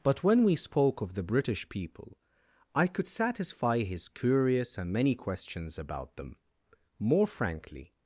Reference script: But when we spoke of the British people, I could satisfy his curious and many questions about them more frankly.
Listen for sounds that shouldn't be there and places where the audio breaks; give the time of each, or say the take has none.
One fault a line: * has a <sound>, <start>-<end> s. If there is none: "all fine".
all fine